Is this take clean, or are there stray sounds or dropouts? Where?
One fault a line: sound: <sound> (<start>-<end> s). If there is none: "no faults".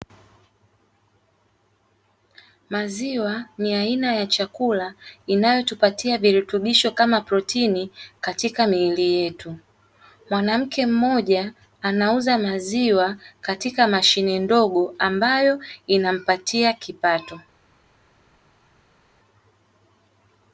no faults